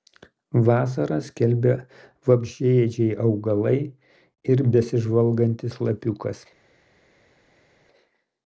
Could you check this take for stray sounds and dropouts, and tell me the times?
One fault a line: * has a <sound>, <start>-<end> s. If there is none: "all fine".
all fine